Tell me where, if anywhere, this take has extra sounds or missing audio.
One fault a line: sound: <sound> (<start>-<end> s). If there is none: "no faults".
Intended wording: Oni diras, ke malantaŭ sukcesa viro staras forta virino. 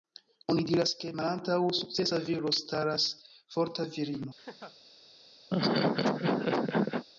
sound: laugh (4.4-4.8 s)
sound: laugh (5.5-7.0 s)